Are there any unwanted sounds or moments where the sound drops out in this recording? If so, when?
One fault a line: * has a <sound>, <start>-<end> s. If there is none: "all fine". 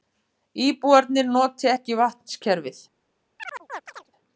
* has a chirp, 3.4-4.1 s